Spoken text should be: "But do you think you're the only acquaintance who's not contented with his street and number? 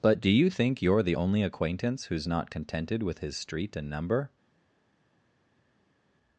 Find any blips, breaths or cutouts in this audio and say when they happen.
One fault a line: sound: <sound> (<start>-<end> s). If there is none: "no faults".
no faults